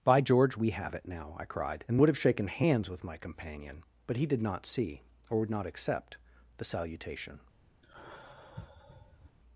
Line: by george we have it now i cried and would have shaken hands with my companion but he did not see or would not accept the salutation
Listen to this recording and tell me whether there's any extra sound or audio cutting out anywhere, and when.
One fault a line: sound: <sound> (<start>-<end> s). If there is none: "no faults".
sound: sigh (7.8-9.4 s)